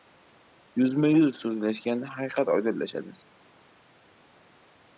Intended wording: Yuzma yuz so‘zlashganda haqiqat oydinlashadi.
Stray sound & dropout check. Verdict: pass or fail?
pass